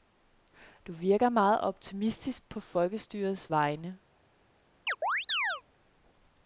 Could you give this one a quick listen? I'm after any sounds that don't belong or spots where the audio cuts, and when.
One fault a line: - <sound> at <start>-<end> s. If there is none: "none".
- chirp at 4.9-5.6 s